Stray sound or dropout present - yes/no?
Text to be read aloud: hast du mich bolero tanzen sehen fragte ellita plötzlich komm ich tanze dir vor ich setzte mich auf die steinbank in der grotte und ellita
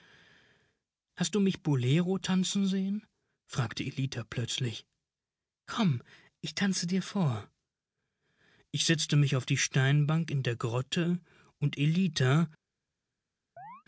yes